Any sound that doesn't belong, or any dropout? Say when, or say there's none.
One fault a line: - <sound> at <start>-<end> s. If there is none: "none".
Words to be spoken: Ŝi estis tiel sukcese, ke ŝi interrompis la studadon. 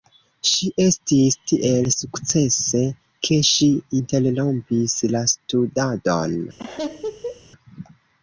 - laugh at 6.6-7.4 s